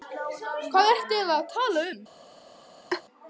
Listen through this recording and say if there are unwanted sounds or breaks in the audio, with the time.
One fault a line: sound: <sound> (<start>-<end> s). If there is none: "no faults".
sound: laugh (2.9-3.0 s)